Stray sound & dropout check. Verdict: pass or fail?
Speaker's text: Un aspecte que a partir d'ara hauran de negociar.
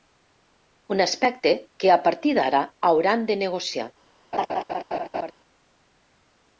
fail